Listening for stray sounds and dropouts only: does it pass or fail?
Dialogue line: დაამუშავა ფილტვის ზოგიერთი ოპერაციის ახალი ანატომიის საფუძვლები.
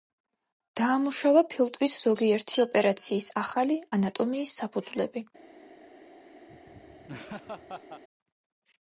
fail